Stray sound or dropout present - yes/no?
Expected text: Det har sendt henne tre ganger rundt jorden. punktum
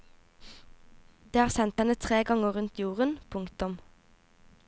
no